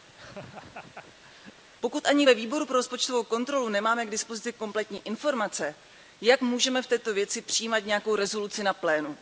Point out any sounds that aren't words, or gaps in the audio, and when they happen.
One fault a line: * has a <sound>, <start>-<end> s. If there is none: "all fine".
* has a laugh, 0.1-1.6 s